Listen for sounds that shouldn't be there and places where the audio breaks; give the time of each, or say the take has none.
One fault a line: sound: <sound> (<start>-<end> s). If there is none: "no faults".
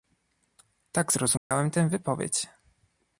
sound: dropout (1.4-1.5 s)